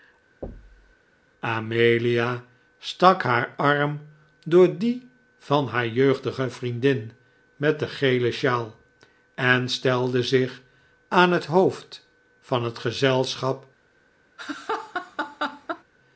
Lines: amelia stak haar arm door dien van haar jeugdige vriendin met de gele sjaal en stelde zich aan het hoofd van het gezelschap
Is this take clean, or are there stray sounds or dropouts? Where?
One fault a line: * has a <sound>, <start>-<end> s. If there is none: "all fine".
* has a thud, 0.4-1.0 s
* has a laugh, 14.4-15.8 s